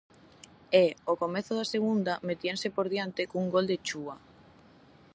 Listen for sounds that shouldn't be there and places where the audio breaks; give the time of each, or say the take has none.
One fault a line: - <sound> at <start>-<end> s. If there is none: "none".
none